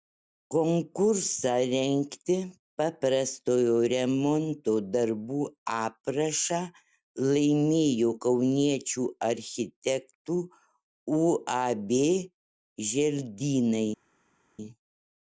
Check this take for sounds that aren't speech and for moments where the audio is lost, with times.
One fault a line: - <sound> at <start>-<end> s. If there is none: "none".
none